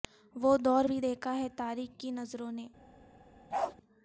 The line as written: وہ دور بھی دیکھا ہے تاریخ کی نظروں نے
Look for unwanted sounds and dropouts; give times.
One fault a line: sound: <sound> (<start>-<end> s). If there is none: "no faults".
sound: bark (3.5-3.8 s)